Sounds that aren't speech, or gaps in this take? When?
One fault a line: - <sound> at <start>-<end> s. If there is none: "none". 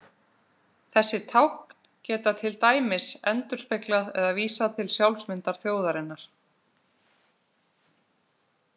none